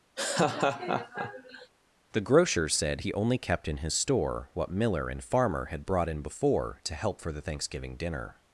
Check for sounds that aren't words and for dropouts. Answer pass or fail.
fail